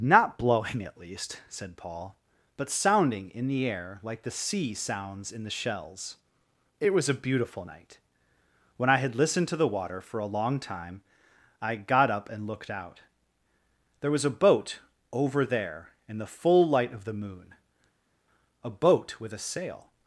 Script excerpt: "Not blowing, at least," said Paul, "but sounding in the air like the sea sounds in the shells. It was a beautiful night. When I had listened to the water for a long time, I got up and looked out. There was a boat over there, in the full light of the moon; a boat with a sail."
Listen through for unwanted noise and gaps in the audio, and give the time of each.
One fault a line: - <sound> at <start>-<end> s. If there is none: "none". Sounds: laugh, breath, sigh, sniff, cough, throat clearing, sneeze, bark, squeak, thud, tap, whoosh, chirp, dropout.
none